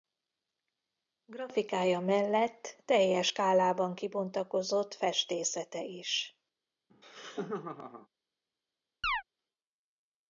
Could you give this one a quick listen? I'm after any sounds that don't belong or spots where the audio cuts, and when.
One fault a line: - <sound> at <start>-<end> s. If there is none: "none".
- laugh at 6.9-8.1 s
- chirp at 9.0-9.2 s